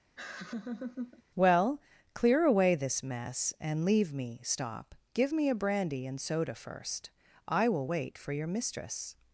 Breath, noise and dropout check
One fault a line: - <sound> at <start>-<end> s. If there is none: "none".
- laugh at 0.2-1.2 s